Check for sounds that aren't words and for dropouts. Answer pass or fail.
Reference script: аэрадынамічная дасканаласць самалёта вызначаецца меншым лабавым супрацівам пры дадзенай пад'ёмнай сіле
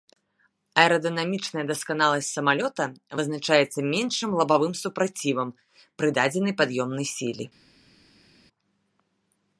pass